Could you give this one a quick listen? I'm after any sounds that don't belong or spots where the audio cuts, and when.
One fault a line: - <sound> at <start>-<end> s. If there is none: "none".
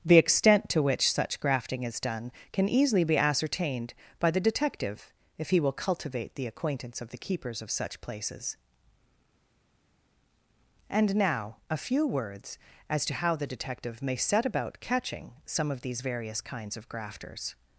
none